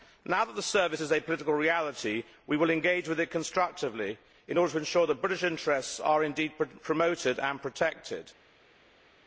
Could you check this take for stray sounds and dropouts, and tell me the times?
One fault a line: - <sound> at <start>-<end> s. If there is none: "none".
none